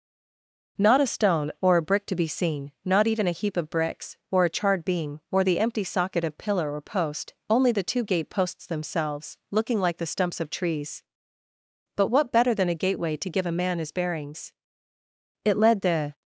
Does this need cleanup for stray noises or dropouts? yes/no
no